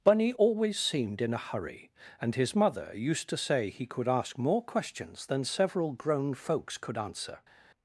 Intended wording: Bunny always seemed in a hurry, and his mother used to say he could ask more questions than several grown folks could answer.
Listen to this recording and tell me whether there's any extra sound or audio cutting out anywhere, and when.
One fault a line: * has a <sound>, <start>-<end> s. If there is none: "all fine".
all fine